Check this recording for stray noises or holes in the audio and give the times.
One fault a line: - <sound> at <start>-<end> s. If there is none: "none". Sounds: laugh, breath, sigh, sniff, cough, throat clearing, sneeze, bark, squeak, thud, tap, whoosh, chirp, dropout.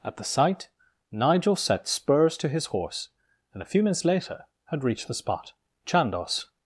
none